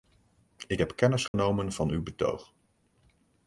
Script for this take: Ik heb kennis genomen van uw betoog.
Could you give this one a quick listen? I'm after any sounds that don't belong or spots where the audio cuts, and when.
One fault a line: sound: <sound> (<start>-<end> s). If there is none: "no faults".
sound: dropout (1.3-1.3 s)